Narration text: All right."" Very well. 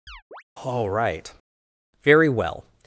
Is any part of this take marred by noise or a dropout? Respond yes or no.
yes